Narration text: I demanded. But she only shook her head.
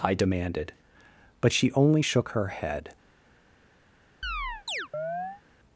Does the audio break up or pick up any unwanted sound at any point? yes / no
yes